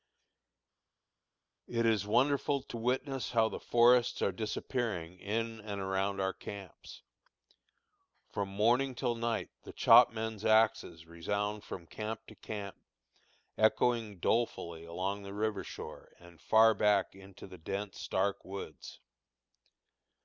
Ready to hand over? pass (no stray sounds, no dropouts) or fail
pass